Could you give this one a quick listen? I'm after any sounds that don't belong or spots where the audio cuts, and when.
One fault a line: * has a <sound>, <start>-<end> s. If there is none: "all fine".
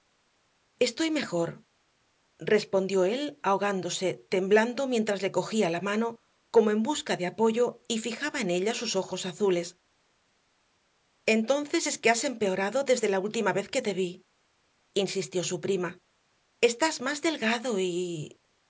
all fine